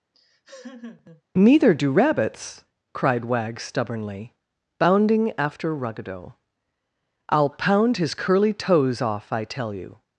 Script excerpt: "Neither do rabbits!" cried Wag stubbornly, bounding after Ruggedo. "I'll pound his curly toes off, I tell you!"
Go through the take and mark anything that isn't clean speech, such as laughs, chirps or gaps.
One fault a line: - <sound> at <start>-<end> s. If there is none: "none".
- laugh at 0.1-1.2 s